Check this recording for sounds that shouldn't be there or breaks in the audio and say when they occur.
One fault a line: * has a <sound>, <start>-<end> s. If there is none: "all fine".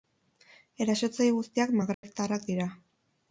* has a dropout, 1.9-2.0 s